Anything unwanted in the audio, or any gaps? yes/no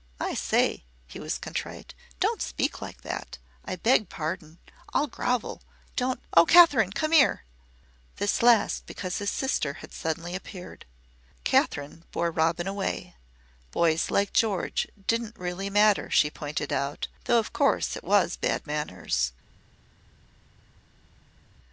no